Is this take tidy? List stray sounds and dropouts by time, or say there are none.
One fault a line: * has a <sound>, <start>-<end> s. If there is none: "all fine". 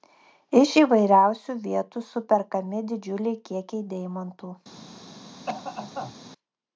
* has a cough, 5.5-6.1 s